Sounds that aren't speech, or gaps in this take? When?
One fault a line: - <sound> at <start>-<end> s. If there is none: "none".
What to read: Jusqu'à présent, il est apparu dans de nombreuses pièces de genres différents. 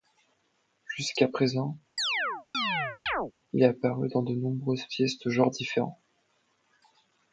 - chirp at 2.0-3.3 s